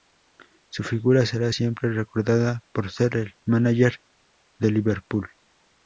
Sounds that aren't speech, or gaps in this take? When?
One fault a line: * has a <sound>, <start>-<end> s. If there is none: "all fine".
all fine